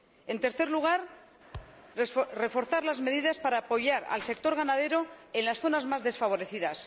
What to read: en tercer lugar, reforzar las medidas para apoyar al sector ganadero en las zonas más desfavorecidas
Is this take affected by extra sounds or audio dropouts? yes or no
yes